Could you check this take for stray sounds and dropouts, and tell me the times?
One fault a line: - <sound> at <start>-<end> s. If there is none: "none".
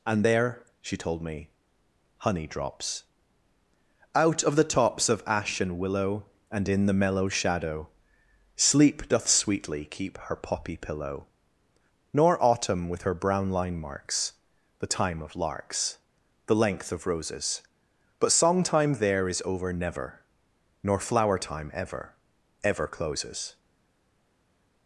none